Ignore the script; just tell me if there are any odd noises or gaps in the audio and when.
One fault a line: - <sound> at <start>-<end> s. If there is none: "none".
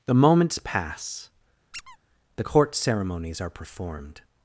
- squeak at 1.7-2.0 s